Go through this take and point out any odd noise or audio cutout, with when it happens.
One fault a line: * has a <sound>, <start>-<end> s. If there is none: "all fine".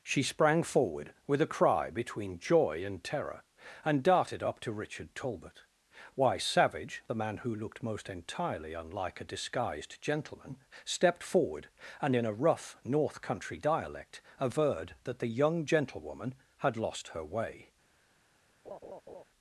* has a laugh, 18.6-19.2 s